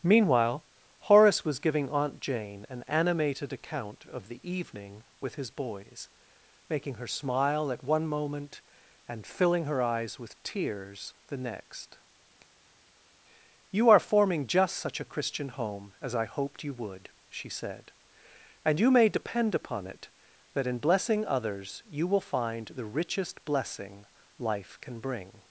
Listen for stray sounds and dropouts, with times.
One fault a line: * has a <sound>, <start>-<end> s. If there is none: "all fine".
all fine